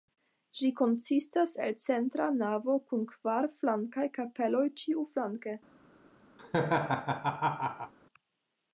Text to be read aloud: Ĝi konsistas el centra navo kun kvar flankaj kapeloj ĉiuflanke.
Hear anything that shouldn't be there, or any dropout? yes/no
yes